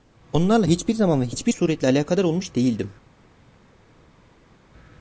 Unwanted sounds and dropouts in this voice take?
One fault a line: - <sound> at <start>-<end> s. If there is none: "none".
none